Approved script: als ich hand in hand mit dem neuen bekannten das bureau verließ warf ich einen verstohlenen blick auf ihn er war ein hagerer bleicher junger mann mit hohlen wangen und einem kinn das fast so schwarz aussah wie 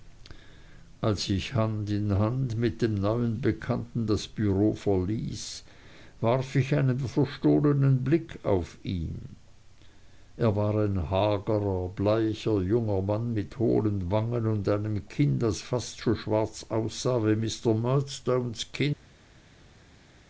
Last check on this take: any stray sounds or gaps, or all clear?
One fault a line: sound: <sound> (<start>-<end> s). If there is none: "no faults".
no faults